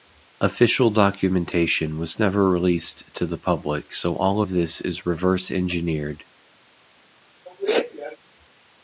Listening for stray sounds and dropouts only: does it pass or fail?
fail